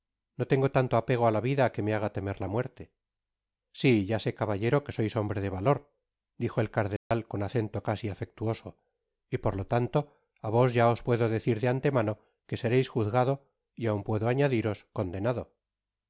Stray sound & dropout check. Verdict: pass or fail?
fail